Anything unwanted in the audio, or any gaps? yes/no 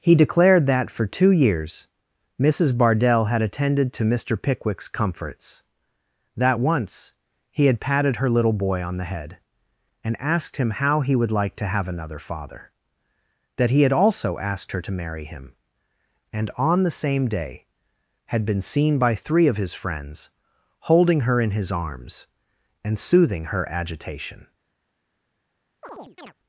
yes